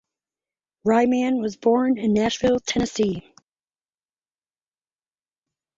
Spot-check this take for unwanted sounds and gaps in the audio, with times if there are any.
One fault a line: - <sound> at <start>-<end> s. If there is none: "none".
none